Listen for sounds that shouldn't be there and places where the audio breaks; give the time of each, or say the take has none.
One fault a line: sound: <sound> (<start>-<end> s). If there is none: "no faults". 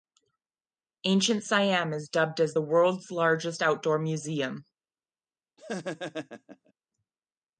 sound: laugh (5.6-6.7 s)